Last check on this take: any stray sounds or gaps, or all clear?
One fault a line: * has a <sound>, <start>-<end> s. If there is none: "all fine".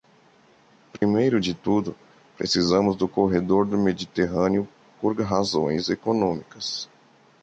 * has a dropout, 1.0-1.0 s